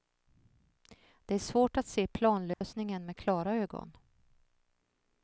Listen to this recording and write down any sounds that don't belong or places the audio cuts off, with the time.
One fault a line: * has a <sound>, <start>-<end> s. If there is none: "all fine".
* has a dropout, 2.5-2.6 s